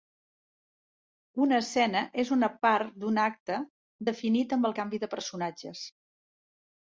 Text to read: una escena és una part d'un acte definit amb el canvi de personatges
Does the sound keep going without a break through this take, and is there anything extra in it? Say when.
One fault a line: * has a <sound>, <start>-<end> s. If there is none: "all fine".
all fine